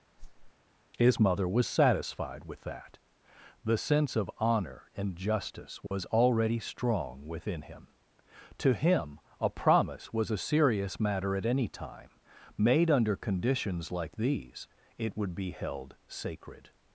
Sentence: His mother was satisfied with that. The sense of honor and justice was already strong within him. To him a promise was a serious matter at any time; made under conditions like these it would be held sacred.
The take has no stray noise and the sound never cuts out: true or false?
false